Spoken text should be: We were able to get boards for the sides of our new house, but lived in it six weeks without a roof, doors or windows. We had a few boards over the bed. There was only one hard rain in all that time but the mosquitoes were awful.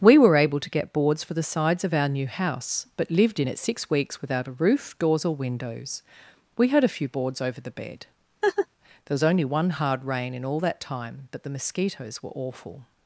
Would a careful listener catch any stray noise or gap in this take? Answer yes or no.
yes